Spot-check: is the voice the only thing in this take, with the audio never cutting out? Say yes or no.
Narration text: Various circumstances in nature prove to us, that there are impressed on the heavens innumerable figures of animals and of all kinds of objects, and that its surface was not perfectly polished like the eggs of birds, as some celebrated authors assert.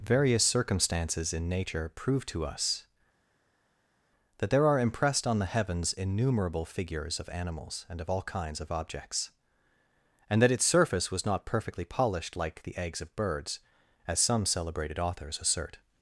yes